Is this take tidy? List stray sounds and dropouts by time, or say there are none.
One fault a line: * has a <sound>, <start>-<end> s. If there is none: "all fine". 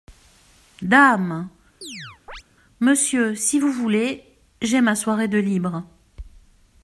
* has a chirp, 1.8-2.4 s